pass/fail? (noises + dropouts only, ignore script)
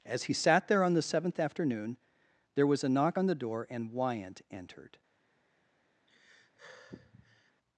fail